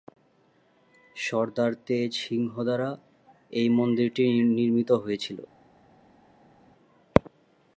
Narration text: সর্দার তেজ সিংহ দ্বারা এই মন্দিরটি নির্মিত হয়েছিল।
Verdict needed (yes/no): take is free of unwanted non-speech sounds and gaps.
yes